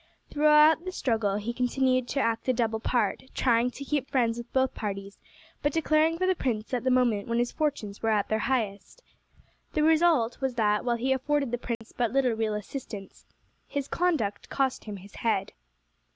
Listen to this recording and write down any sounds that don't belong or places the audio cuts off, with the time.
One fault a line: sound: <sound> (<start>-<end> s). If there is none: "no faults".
sound: dropout (11.7-11.8 s)